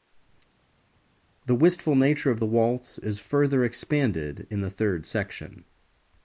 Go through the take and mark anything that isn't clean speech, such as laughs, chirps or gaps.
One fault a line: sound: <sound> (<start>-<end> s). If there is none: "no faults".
no faults